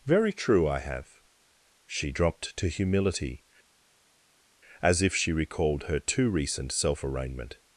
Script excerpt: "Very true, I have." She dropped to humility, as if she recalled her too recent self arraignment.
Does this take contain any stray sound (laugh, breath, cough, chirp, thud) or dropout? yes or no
no